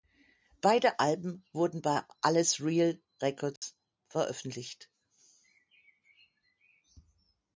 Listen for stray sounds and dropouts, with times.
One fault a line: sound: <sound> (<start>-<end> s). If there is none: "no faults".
sound: dropout (3.6-3.6 s)